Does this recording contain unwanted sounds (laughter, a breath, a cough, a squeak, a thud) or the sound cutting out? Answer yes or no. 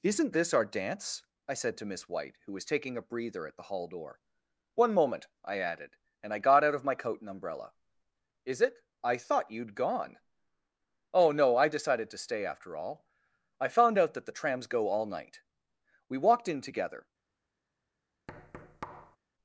yes